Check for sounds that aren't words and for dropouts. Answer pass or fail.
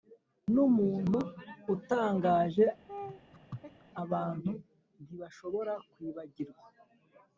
fail